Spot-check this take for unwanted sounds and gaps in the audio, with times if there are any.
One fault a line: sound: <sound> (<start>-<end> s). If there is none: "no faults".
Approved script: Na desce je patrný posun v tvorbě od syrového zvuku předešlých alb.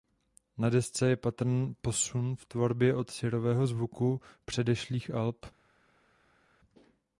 no faults